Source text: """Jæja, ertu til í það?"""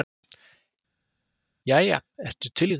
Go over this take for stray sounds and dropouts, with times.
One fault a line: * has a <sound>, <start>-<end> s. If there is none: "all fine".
all fine